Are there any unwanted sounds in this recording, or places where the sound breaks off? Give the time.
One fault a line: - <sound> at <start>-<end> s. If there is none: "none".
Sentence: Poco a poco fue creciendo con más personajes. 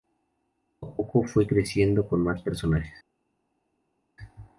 none